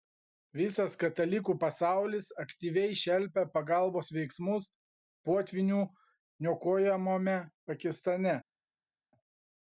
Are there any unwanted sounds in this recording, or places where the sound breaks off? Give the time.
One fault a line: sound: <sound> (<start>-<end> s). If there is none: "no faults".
no faults